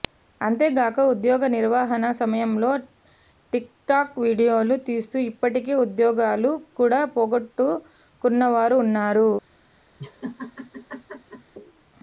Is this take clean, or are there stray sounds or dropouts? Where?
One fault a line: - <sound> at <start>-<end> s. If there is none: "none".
- laugh at 10.0-11.5 s